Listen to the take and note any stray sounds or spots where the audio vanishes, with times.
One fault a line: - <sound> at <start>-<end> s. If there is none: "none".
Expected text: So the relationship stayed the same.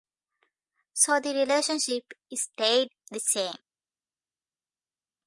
none